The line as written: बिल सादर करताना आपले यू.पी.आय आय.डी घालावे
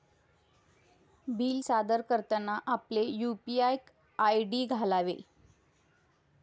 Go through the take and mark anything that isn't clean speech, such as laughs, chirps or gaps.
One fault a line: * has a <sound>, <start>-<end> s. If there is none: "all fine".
all fine